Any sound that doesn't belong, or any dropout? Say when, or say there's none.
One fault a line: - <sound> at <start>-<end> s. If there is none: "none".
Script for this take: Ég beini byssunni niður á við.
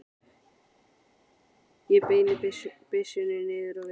none